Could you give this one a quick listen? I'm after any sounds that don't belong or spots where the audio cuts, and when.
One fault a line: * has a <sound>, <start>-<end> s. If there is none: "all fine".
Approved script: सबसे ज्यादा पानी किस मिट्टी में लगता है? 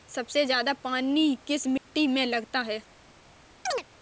* has a dropout, 1.8-1.9 s
* has a chirp, 3.7-3.8 s